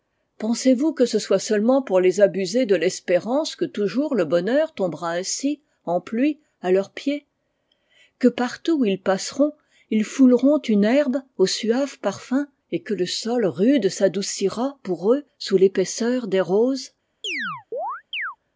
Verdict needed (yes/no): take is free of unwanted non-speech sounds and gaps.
no